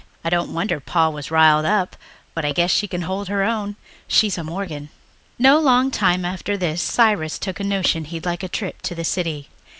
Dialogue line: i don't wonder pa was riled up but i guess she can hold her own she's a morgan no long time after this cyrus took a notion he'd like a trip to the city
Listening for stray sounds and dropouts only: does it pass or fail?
pass